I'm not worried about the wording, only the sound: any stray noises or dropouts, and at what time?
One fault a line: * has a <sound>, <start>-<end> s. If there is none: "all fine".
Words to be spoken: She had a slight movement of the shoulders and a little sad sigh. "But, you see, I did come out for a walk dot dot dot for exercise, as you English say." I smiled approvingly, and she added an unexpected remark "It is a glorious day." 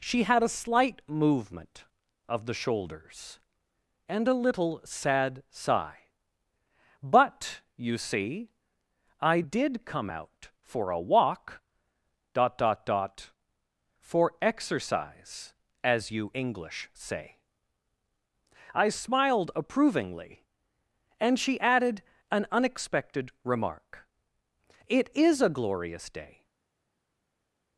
all fine